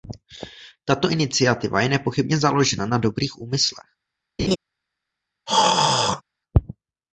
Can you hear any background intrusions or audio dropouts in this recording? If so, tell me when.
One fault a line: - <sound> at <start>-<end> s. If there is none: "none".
- laugh at 4.4-4.6 s
- throat clearing at 5.5-6.2 s